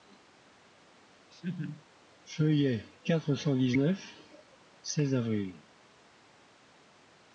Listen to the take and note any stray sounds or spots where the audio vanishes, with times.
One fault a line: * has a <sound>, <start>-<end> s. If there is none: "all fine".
* has a laugh, 1.3-1.8 s